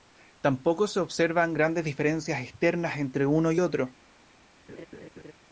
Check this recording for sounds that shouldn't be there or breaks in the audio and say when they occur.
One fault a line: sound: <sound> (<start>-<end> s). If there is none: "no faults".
sound: laugh (4.7-5.3 s)